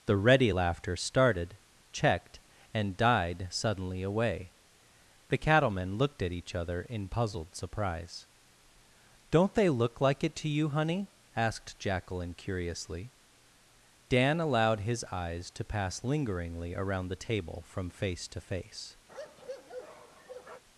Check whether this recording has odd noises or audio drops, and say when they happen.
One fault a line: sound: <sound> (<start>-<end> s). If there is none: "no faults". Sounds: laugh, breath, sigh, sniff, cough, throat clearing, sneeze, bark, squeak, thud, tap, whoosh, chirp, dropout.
sound: bark (19.1-20.6 s)